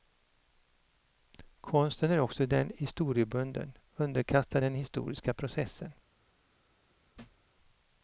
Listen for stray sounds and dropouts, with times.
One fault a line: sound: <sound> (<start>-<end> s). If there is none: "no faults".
sound: thud (7.1-7.5 s)